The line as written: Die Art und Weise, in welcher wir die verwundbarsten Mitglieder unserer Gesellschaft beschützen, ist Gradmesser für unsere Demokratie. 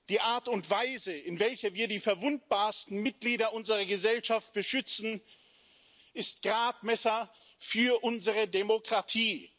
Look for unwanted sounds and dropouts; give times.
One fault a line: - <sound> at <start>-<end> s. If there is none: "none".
none